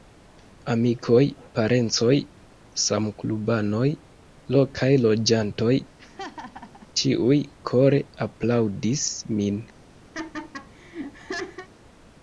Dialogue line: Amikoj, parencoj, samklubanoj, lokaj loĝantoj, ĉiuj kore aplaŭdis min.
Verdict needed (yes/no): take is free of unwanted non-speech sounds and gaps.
no